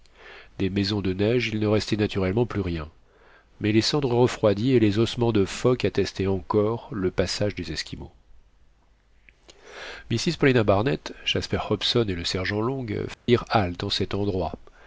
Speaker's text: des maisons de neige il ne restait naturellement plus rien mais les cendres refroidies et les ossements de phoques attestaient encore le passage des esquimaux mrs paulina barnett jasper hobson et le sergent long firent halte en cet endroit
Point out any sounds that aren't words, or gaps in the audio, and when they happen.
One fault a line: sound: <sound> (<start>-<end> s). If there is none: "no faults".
sound: dropout (13.1-13.3 s)